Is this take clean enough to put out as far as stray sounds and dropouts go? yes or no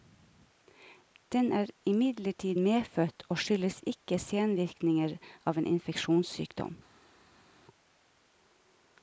yes